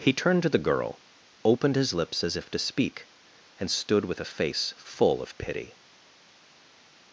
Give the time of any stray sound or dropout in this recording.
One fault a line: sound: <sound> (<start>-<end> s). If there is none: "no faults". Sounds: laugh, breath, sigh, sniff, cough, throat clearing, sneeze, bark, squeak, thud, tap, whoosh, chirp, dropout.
no faults